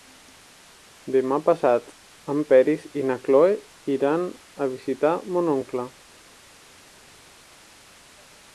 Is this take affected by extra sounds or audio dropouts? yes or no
no